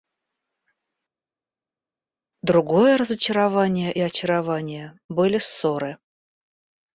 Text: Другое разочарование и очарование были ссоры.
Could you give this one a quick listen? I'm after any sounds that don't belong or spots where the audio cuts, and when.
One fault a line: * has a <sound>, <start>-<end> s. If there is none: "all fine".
all fine